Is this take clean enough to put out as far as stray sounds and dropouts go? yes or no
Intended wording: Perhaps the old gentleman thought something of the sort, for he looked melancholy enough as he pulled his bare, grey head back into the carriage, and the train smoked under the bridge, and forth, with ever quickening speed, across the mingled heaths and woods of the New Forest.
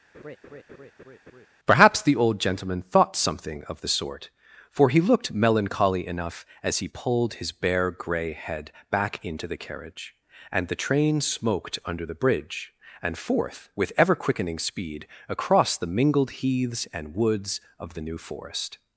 no